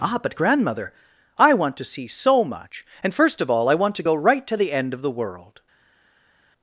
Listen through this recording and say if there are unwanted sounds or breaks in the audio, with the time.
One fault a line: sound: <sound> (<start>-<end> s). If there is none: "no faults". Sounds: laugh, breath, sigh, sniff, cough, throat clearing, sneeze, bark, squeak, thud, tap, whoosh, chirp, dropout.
no faults